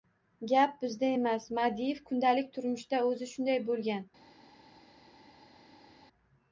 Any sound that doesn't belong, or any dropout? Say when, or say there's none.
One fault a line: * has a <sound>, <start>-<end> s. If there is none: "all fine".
all fine